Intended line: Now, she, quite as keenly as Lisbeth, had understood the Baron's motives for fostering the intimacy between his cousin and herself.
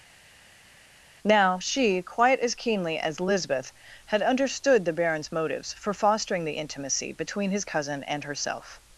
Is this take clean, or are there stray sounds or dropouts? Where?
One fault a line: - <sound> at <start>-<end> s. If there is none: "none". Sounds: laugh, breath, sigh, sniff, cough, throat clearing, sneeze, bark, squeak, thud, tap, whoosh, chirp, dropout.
none